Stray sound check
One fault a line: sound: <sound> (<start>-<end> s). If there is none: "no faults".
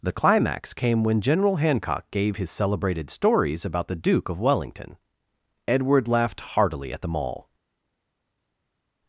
no faults